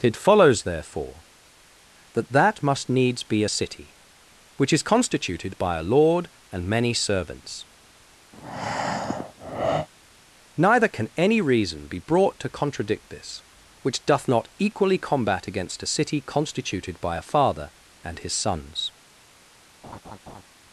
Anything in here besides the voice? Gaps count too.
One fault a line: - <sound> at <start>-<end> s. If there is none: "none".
- breath at 8.3-9.9 s
- laugh at 19.8-20.4 s